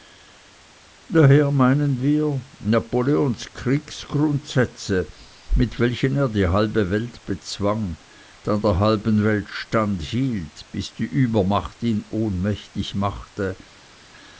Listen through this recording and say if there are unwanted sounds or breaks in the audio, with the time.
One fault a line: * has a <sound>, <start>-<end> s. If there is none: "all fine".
all fine